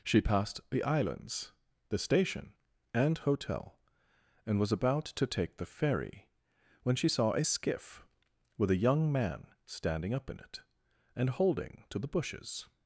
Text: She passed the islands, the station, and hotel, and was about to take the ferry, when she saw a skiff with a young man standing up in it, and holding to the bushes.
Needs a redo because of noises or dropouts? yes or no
no